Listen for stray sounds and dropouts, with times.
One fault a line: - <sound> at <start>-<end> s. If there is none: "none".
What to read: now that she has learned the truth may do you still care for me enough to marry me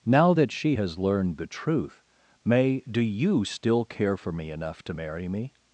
none